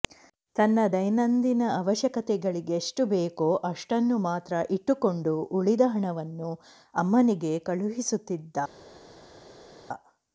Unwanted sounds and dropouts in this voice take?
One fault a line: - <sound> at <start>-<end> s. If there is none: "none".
none